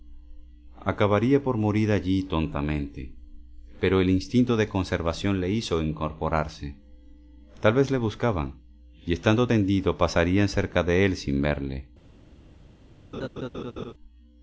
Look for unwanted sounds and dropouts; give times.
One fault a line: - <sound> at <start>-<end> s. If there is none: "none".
- laugh at 13.1-13.9 s